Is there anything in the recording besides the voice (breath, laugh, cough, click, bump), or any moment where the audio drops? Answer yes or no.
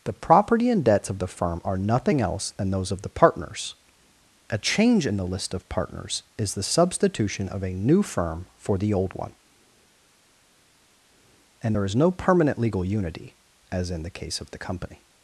no